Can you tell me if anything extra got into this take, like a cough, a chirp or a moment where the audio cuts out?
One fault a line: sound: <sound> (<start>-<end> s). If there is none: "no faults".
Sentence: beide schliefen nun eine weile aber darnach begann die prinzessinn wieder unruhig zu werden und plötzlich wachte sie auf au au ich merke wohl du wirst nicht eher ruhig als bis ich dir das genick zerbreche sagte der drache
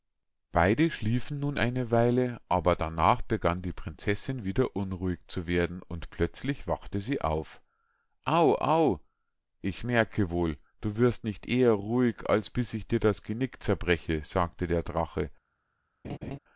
sound: laugh (16.0-16.4 s)